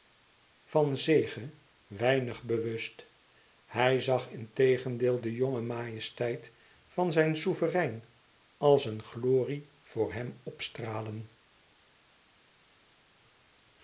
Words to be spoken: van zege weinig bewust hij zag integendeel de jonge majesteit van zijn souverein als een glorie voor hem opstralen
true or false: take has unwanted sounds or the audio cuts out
false